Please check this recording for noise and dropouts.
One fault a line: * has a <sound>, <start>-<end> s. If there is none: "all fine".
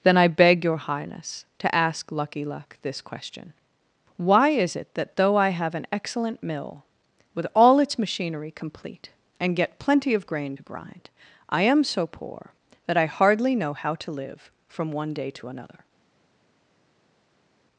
all fine